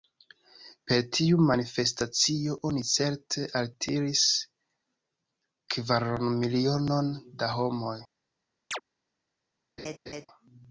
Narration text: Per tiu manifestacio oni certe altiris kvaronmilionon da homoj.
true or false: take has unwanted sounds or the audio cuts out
true